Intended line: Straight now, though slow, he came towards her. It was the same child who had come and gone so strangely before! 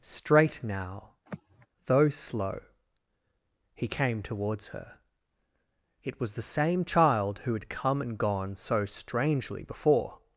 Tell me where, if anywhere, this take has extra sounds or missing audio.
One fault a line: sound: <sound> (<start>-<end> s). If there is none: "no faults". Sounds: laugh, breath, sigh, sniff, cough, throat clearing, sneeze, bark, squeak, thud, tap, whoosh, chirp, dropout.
sound: sigh (1.3-1.7 s)